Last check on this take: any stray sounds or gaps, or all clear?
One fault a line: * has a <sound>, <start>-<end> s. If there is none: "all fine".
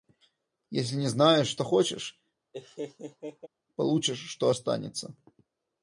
* has a laugh, 2.5-3.5 s